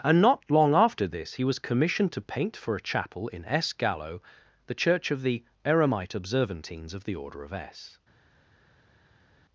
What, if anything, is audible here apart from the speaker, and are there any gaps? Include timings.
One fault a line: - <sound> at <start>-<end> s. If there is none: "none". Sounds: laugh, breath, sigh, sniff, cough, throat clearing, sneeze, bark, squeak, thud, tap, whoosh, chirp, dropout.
none